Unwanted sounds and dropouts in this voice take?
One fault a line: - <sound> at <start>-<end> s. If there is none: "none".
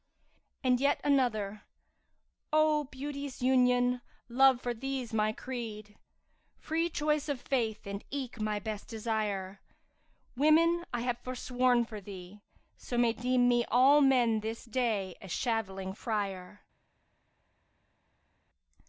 none